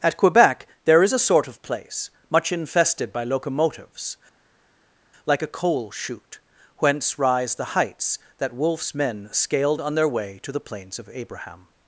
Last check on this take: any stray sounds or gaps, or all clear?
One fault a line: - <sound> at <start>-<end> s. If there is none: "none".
none